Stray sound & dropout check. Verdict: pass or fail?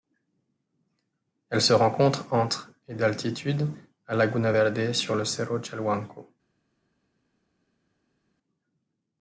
pass